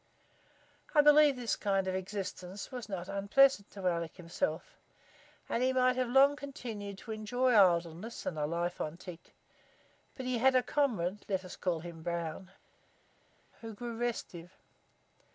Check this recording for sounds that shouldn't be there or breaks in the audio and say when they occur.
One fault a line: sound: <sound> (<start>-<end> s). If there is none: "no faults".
no faults